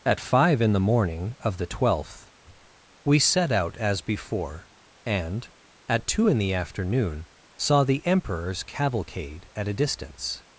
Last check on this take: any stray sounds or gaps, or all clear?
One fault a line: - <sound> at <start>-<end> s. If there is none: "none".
none